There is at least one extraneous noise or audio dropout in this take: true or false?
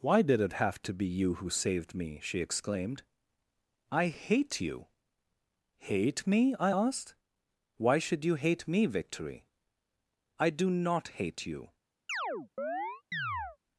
true